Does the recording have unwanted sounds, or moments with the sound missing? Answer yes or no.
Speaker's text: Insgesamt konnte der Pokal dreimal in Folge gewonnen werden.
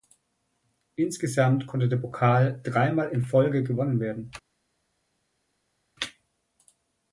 no